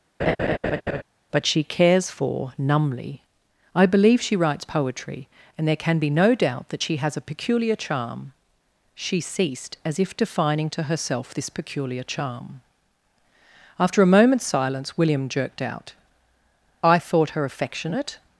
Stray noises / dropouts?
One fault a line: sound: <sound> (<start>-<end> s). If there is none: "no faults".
sound: laugh (0.2-1.0 s)